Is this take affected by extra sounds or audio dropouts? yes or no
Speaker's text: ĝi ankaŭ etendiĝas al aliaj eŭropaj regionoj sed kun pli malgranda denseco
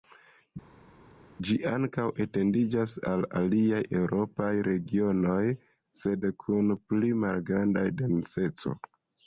no